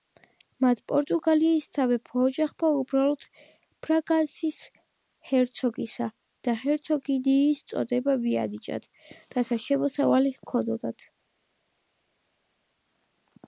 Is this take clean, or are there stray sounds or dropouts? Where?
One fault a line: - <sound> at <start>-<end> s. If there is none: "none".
none